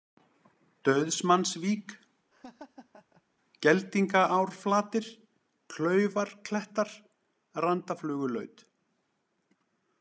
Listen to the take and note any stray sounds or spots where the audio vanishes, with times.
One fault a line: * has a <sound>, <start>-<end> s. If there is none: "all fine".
* has a laugh, 2.3-3.2 s